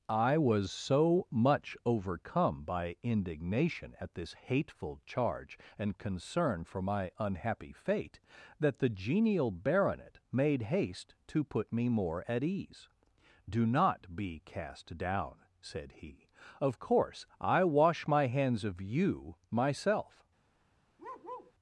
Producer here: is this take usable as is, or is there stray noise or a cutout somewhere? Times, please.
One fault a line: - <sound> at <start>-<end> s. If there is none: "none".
- bark at 21.0-21.5 s